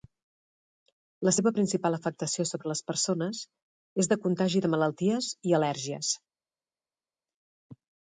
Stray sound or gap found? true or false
false